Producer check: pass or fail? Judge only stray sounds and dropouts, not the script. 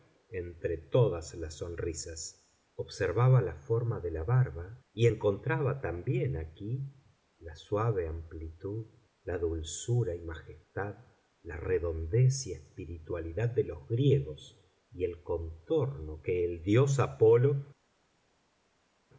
pass